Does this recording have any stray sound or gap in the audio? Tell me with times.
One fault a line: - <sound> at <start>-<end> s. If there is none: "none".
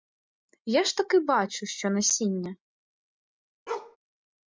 - bark at 3.7-4.0 s